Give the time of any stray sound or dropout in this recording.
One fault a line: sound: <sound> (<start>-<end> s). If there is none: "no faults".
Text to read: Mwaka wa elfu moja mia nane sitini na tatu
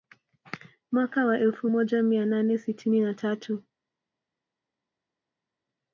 no faults